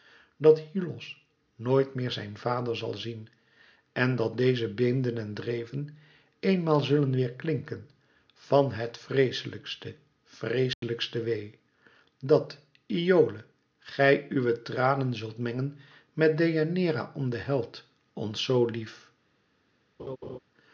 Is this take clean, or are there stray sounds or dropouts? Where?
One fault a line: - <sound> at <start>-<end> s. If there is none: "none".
- dropout at 10.7-10.8 s
- laugh at 20.0-20.4 s